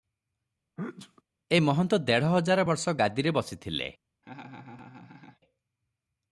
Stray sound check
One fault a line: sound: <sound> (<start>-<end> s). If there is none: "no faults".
sound: sneeze (0.8-1.2 s)
sound: laugh (4.2-5.4 s)